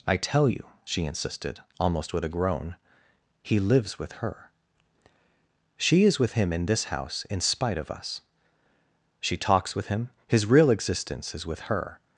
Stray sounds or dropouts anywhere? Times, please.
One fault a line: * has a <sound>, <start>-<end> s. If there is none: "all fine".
all fine